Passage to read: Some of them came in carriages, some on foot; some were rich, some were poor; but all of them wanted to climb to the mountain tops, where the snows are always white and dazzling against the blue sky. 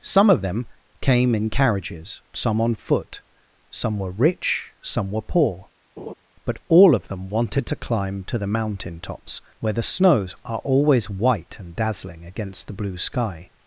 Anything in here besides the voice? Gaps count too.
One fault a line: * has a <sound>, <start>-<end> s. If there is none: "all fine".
* has a laugh, 6.0-6.1 s